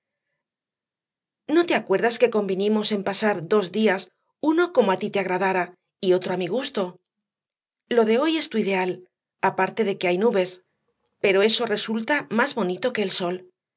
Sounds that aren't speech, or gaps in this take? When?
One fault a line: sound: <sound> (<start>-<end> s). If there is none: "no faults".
no faults